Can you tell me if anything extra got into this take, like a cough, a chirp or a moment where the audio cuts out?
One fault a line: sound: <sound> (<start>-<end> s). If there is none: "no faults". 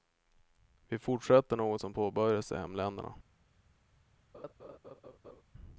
sound: laugh (4.3-5.4 s)